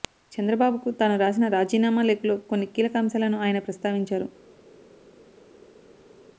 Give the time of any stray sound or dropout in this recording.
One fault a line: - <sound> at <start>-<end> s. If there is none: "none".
none